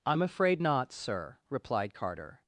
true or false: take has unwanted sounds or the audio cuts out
false